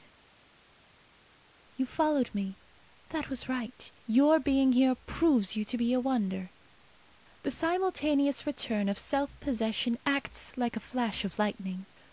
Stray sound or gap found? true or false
false